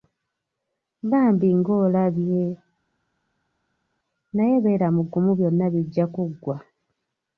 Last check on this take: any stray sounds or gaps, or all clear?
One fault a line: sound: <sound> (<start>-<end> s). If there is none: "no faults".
no faults